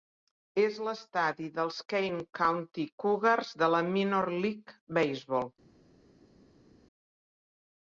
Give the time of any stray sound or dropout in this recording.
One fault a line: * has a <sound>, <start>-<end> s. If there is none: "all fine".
all fine